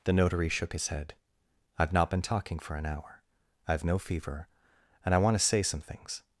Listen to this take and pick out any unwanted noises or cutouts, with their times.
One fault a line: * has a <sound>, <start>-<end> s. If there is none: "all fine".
all fine